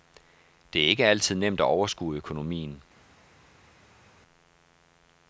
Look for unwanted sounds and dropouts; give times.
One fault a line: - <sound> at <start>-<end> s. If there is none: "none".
none